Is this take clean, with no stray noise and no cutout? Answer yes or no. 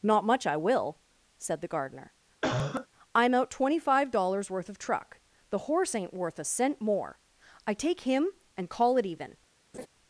no